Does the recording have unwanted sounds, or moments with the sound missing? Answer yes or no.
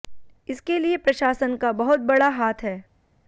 no